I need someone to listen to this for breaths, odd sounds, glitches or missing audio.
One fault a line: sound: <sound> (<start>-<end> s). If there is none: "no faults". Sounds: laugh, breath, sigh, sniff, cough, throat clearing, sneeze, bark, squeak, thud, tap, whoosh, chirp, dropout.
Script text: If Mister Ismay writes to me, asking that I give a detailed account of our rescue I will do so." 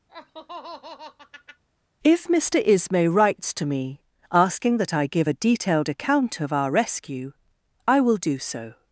sound: laugh (0.1-1.6 s)